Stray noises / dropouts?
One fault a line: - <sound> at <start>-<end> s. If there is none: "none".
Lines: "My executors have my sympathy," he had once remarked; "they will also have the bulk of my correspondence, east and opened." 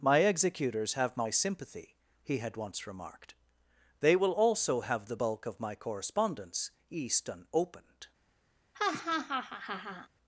- laugh at 8.7-10.1 s